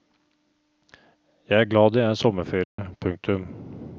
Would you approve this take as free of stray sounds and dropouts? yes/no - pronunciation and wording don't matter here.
no